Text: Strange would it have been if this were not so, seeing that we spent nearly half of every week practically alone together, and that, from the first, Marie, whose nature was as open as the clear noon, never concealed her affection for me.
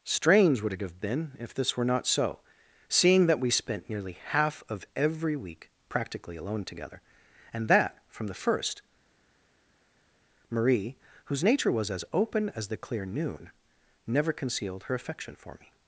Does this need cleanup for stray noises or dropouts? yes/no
no